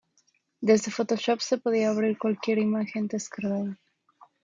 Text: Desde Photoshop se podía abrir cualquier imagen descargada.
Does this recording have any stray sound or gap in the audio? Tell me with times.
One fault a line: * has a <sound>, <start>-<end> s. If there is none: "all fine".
all fine